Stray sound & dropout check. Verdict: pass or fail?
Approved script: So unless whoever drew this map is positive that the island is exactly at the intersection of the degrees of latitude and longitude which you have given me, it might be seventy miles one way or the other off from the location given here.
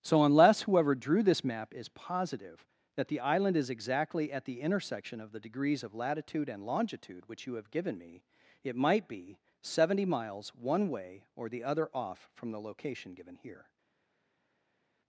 pass